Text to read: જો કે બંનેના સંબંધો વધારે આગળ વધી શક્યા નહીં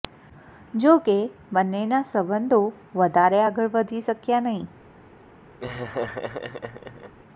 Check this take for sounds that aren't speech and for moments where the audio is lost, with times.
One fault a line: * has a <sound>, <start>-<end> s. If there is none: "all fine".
* has a laugh, 5.6-7.1 s